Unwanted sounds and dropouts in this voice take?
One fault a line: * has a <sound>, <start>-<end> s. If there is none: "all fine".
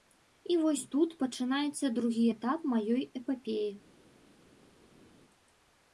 all fine